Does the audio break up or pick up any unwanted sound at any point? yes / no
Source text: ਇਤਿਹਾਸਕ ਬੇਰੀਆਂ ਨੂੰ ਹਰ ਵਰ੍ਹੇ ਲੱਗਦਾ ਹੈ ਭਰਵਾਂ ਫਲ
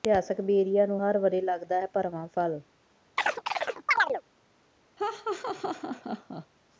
yes